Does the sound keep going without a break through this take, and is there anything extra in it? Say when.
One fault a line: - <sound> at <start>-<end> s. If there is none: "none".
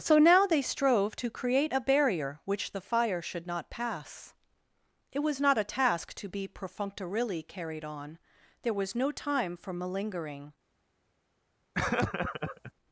- laugh at 11.7-12.7 s